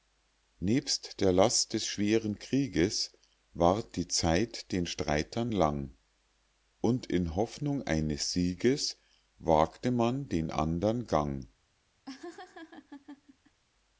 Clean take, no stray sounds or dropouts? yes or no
no